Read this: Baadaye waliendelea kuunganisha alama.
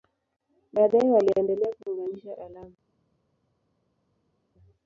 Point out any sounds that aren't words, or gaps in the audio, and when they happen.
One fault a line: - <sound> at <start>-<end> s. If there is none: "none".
none